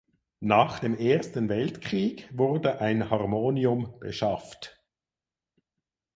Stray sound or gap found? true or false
false